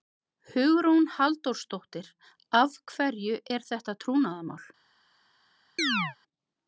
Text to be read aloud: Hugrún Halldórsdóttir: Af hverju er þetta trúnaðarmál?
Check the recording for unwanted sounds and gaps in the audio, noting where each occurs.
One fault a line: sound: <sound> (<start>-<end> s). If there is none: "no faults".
sound: chirp (5.8-6.2 s)